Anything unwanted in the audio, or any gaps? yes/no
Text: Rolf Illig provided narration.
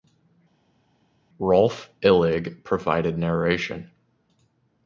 no